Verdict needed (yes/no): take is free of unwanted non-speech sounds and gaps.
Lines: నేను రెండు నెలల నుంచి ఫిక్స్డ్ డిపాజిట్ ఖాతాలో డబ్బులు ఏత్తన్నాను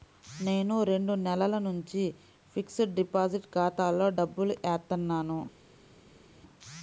yes